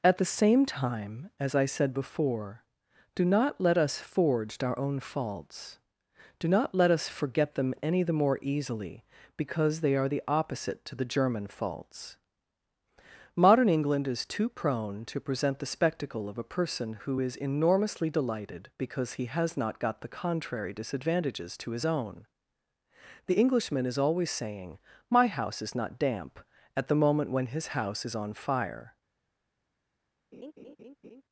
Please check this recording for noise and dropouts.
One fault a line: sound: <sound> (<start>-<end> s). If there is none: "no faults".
sound: laugh (30.3-31.2 s)